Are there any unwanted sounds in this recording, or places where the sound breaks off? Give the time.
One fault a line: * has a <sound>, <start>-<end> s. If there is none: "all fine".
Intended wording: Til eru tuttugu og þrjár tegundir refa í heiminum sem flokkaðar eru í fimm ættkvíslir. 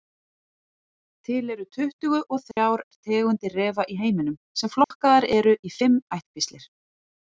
* has a dropout, 2.5-2.6 s
* has a dropout, 4.8-4.9 s